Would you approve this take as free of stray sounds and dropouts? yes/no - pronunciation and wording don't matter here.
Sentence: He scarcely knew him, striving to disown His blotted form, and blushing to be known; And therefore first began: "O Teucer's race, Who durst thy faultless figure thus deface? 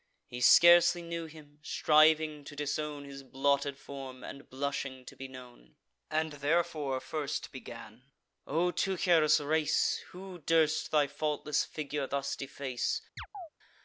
no